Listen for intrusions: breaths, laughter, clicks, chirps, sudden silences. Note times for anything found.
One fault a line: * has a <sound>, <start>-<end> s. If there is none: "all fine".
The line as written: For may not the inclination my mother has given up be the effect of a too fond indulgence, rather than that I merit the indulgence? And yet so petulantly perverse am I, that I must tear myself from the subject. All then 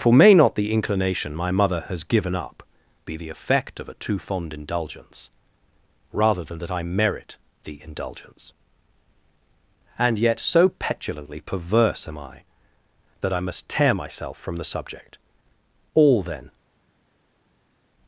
all fine